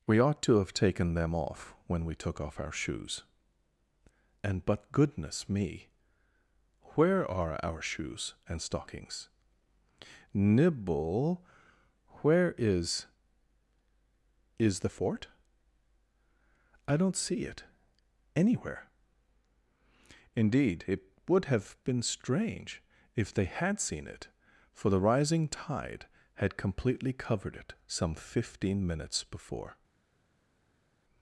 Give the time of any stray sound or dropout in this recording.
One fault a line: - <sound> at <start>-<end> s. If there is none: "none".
none